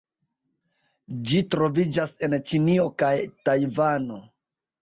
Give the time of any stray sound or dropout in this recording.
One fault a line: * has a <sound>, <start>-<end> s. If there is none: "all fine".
all fine